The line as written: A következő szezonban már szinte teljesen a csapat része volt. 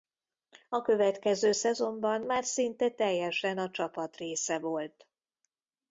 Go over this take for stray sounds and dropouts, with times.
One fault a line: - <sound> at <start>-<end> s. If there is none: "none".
none